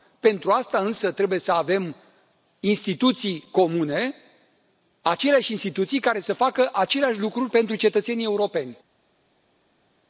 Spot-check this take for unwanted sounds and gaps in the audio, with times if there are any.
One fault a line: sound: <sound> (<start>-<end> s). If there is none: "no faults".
no faults